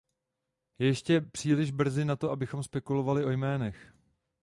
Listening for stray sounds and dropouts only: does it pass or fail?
pass